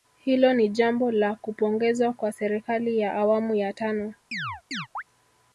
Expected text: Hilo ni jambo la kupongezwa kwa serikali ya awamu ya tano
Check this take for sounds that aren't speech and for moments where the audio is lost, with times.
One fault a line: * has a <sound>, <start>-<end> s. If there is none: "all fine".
* has a chirp, 4.3-5.0 s